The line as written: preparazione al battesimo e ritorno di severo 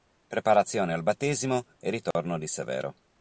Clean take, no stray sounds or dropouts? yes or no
no